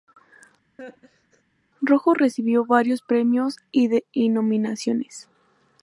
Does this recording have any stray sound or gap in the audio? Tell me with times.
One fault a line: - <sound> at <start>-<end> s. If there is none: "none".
- laugh at 0.8-1.4 s